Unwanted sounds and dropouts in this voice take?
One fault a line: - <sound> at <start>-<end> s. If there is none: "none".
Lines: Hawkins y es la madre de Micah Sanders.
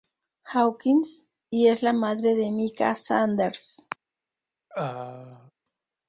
- throat clearing at 4.7-5.5 s